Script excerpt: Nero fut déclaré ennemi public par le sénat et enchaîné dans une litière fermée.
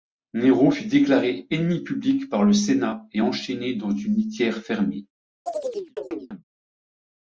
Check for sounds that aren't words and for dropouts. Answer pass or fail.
fail